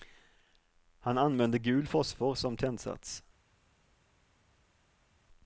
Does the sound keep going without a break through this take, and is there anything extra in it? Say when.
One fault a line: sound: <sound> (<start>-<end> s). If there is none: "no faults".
no faults